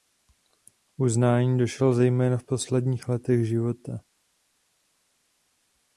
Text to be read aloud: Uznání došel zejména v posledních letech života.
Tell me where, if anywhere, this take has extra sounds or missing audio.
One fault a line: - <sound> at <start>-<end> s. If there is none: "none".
none